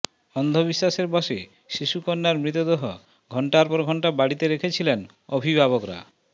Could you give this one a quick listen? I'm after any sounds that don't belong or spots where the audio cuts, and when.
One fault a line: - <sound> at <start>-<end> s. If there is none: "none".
none